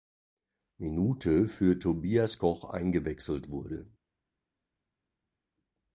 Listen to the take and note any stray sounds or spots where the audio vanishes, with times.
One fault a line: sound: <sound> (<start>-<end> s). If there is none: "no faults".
no faults